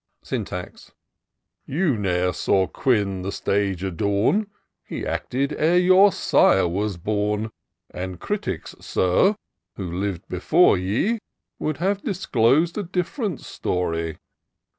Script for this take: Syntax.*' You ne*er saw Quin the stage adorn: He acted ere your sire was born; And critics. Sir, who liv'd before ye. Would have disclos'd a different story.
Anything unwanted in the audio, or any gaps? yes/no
no